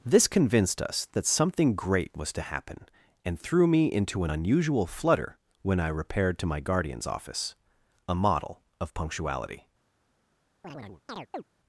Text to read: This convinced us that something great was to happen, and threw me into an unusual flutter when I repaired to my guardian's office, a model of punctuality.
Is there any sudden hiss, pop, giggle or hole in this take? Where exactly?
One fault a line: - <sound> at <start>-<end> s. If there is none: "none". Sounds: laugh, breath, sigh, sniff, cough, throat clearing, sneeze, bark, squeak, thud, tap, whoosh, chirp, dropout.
- chirp at 10.6-11.4 s